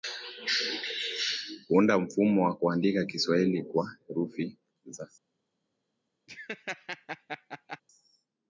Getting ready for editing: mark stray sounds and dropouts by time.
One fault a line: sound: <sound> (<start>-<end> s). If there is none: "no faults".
sound: laugh (6.3-7.8 s)